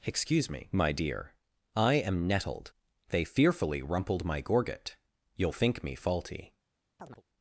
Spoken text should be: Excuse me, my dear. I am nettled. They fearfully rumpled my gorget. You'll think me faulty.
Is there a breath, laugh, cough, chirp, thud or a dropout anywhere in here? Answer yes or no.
yes